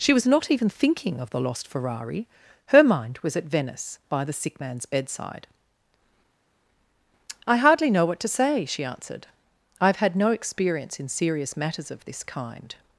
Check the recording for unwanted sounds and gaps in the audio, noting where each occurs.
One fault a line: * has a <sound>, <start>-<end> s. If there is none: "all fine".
all fine